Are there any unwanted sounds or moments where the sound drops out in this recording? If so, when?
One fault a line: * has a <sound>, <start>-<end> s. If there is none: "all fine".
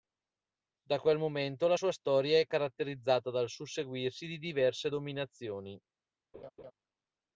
* has a laugh, 6.3-6.7 s